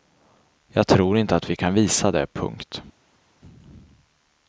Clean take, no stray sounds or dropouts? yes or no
yes